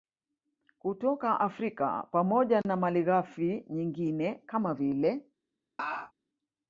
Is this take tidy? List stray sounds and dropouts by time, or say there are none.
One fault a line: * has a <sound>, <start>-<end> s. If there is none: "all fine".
* has a laugh, 5.8-6.1 s